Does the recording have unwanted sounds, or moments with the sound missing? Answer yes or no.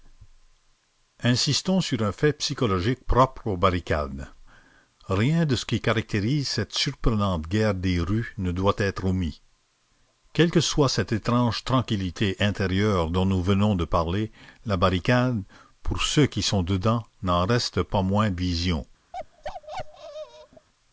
yes